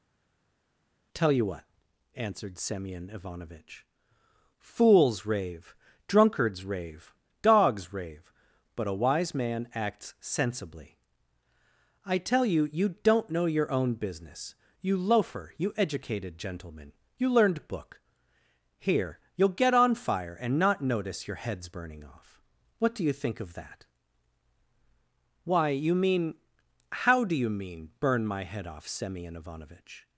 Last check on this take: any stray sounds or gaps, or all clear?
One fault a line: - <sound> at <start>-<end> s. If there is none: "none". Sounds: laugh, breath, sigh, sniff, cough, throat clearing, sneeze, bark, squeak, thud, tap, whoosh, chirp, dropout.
none